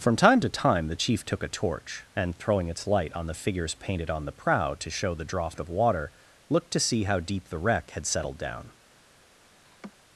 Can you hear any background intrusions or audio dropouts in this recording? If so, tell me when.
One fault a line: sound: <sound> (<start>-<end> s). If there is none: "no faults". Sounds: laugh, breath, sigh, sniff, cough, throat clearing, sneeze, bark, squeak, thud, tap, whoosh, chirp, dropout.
sound: laugh (9.6-9.9 s)